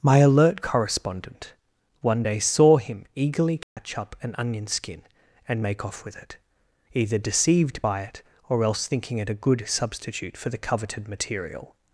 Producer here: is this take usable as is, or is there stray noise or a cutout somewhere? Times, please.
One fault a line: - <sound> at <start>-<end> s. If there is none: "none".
- dropout at 3.6-3.8 s